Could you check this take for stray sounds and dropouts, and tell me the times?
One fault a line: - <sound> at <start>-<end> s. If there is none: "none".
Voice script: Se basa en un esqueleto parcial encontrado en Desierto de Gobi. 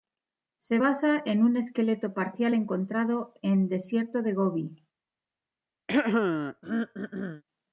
- throat clearing at 5.9-7.4 s